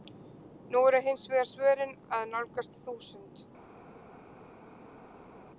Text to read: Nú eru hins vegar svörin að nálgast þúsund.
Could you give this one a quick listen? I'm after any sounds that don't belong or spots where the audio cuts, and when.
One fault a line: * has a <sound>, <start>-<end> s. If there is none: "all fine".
all fine